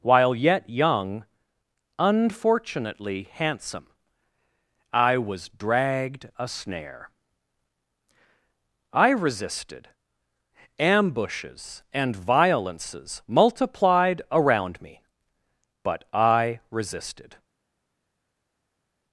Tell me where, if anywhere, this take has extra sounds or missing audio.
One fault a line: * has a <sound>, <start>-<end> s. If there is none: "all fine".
all fine